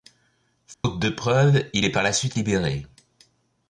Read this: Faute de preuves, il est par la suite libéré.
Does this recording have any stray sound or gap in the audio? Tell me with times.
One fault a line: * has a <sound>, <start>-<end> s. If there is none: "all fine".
* has a dropout, 0.7-0.8 s